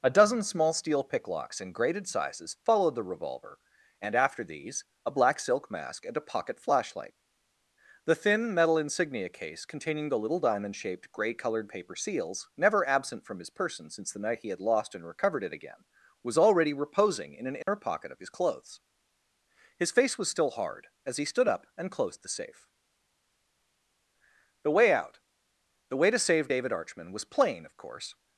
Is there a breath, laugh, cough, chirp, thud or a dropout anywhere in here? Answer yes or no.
yes